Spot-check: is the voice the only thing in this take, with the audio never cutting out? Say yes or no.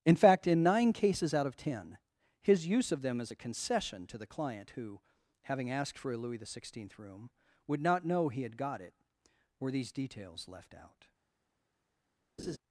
no